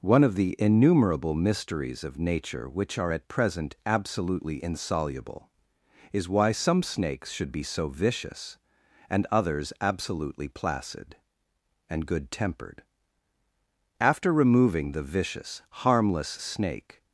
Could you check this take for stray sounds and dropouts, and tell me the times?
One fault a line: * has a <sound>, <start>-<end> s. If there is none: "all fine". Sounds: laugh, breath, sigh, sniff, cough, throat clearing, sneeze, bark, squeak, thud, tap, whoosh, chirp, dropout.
all fine